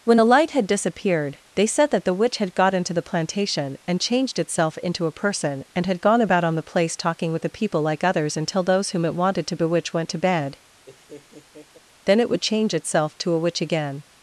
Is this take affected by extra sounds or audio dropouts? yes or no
yes